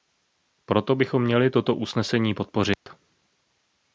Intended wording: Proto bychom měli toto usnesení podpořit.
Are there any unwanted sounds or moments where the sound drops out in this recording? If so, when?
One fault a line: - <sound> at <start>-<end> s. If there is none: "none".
- dropout at 2.7-2.9 s